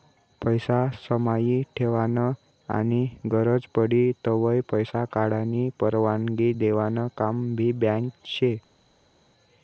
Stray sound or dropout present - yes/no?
no